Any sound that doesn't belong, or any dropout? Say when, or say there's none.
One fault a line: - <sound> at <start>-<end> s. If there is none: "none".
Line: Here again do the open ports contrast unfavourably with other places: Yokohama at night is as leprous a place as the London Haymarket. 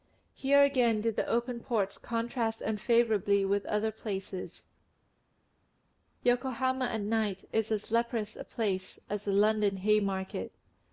none